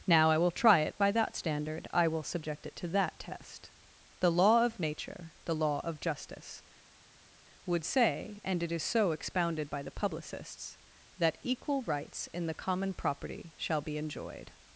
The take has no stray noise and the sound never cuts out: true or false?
true